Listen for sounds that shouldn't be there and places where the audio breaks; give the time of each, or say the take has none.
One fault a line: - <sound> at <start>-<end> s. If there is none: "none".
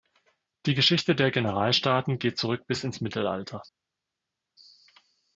none